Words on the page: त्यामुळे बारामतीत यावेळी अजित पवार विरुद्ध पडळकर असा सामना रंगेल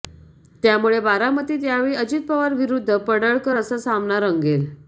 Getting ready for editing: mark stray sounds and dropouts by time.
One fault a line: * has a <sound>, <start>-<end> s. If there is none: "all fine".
all fine